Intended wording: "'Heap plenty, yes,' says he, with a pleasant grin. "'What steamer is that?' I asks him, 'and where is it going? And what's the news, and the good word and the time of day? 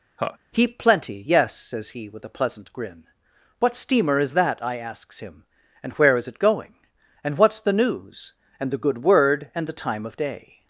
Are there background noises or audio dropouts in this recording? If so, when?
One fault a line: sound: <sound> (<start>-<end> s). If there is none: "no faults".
sound: laugh (0.2-0.4 s)